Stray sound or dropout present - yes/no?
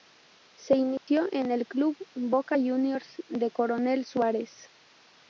yes